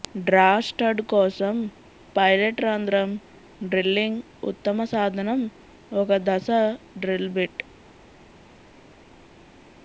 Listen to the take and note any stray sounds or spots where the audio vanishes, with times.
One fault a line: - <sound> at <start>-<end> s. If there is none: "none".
none